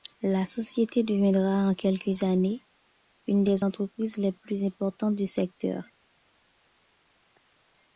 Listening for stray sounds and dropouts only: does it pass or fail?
pass